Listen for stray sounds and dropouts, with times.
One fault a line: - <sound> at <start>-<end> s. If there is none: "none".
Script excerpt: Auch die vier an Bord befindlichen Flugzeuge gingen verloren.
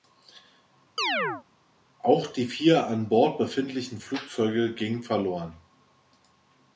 - chirp at 1.0-1.4 s